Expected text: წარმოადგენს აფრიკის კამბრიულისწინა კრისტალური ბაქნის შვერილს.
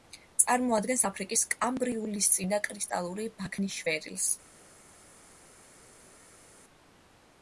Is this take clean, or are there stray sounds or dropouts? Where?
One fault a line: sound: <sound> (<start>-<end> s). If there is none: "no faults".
no faults